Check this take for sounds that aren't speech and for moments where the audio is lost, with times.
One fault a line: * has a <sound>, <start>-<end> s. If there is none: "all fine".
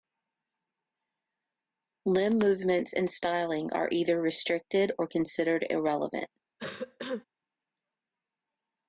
* has a cough, 6.6-7.2 s